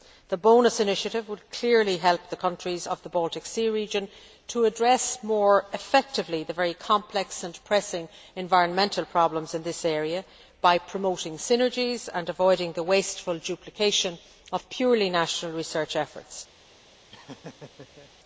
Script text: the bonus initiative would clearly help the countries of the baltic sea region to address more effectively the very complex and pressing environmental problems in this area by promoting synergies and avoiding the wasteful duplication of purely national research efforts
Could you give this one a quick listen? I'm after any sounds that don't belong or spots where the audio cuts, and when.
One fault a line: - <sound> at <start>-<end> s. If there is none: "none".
- laugh at 17.1-18.1 s